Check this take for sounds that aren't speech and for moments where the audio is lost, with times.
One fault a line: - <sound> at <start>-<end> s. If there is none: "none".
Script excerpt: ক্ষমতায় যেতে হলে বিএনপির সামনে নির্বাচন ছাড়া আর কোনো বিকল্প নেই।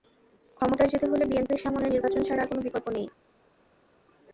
none